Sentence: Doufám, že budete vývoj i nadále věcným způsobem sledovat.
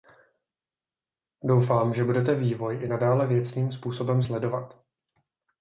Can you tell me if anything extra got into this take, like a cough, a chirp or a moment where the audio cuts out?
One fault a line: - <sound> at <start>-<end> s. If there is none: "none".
none